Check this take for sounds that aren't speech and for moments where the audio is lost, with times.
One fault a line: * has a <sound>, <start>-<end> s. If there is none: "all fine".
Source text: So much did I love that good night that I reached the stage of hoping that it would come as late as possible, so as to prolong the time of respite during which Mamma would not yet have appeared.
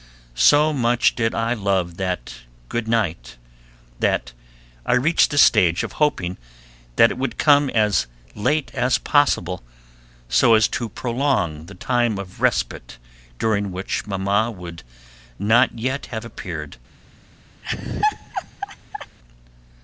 * has a laugh, 17.6-19.2 s